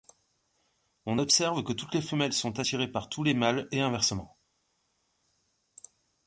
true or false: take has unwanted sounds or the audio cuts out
false